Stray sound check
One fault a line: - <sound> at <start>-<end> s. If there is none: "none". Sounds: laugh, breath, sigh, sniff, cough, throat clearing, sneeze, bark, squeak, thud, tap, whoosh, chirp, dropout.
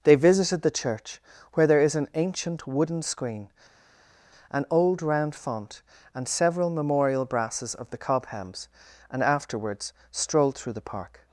none